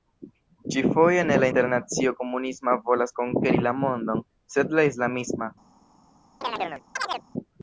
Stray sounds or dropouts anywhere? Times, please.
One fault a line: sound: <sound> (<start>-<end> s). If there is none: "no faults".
sound: chirp (6.4-7.2 s)